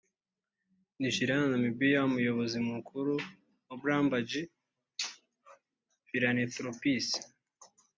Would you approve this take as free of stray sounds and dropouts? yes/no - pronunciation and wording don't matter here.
yes